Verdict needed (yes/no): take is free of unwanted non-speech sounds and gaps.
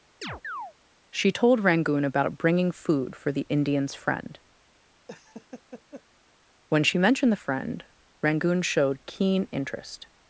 no